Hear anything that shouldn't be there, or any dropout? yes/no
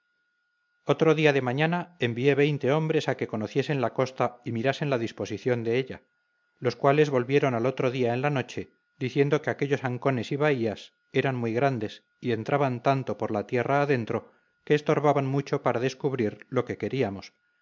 no